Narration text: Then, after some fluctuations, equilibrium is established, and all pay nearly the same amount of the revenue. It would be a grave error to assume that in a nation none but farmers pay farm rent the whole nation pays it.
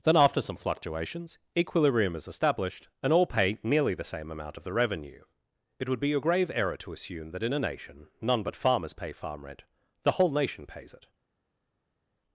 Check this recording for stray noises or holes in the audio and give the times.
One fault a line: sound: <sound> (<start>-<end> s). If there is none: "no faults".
no faults